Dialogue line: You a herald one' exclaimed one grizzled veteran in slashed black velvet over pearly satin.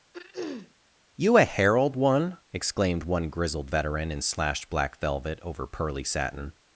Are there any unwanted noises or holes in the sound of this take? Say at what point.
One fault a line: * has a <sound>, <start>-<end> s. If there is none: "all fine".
* has a throat clearing, 0.1-0.7 s